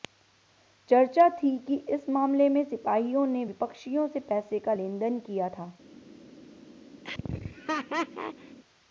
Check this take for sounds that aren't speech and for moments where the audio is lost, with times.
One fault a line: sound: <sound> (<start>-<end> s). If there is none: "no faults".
sound: laugh (7.0-8.6 s)